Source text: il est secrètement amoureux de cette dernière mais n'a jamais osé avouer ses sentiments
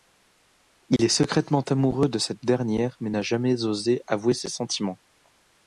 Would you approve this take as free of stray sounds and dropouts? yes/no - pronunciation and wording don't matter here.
no